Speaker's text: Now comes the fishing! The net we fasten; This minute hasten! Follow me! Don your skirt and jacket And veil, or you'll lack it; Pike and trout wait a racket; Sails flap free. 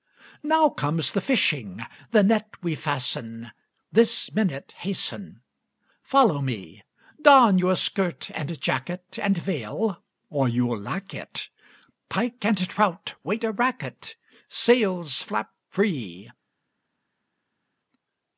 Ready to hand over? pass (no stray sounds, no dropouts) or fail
pass